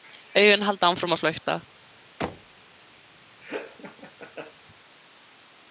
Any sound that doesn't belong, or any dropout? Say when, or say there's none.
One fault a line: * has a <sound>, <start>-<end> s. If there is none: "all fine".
* has a thud, 2.2-2.6 s
* has a laugh, 3.4-4.5 s